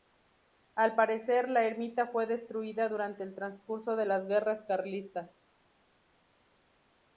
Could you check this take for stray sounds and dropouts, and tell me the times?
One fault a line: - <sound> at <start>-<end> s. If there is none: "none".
none